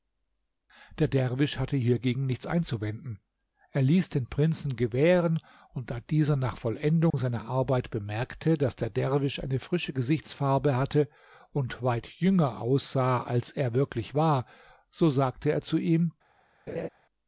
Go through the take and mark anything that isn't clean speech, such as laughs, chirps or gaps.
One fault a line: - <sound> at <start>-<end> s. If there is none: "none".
- dropout at 7.1-7.1 s
- laugh at 16.7-16.9 s